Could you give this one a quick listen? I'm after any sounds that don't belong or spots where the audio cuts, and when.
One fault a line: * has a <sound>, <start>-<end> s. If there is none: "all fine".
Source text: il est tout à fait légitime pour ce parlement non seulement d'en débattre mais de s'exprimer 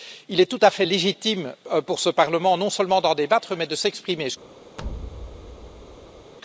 * has a thud, 4.8-6.3 s